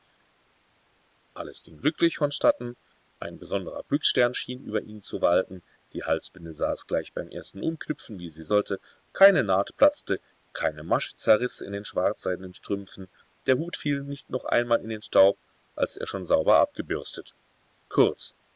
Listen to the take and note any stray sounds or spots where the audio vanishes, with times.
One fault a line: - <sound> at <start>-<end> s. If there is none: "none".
none